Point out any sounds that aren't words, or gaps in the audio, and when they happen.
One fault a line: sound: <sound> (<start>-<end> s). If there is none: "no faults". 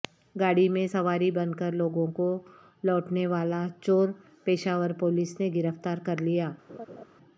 sound: laugh (6.7-7.0 s)